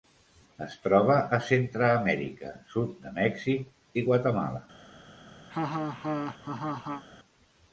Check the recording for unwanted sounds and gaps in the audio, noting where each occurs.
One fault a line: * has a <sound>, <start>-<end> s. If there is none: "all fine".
* has a laugh, 5.5-7.0 s